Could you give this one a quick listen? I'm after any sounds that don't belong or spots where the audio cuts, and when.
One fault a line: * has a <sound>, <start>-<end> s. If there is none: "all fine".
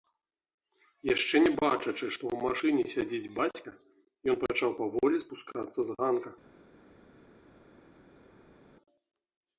all fine